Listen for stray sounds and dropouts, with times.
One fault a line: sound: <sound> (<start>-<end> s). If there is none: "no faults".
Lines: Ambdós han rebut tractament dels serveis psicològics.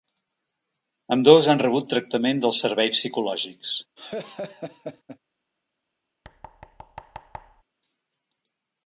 sound: laugh (4.0-5.2 s)
sound: thud (6.2-7.6 s)